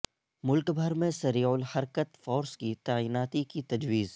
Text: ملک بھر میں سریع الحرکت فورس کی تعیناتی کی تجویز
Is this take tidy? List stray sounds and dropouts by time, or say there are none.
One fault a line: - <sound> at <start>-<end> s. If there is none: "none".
none